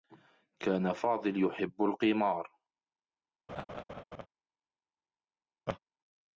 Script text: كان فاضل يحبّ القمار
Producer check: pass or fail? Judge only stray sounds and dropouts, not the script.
fail